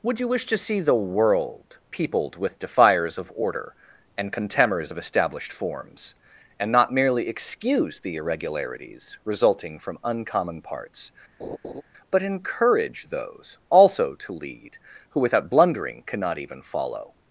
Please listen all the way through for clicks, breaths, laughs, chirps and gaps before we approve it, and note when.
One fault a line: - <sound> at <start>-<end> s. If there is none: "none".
- laugh at 11.4-11.8 s